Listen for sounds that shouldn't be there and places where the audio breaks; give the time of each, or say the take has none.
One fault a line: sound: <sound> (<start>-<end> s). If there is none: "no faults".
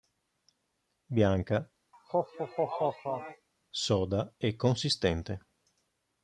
sound: laugh (1.9-3.5 s)